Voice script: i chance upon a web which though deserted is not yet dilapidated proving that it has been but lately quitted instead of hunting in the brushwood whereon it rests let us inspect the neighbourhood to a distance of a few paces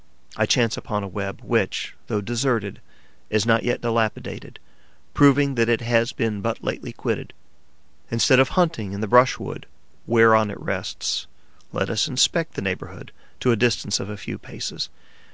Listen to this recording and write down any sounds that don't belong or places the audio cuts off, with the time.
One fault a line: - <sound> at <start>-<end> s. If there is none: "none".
none